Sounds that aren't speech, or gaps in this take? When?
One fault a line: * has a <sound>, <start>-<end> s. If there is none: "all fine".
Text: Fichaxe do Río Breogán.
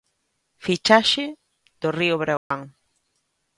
* has a dropout, 2.4-2.5 s